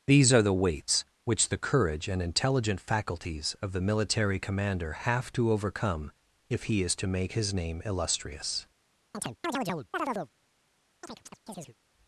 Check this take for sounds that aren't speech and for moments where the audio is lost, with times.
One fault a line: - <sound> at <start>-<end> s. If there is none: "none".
- chirp at 9.1-10.3 s
- chirp at 11.0-11.8 s